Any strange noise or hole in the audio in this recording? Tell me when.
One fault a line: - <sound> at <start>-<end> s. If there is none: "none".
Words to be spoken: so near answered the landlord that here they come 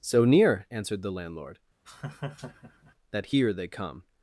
- laugh at 1.9-3.0 s